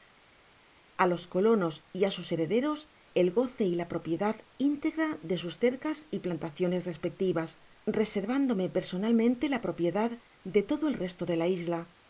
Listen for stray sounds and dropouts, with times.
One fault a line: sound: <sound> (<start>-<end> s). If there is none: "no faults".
no faults